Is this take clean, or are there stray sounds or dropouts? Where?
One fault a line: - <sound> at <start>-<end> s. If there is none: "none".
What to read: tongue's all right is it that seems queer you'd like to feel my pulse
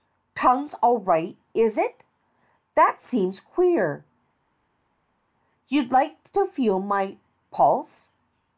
none